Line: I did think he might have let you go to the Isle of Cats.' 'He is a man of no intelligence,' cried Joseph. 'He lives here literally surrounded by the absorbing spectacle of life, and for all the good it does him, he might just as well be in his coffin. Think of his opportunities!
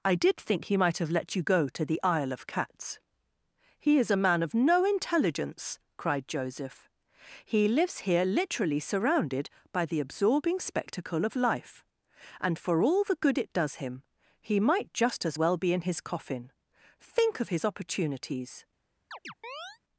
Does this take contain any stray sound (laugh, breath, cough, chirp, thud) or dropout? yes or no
yes